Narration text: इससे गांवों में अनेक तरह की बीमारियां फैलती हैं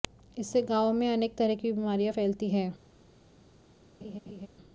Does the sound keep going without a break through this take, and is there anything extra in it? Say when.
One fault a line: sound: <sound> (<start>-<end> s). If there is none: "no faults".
sound: laugh (4.0-4.5 s)